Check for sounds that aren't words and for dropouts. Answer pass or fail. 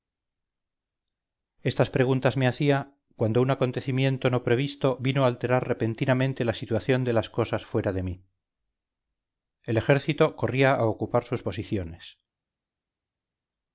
pass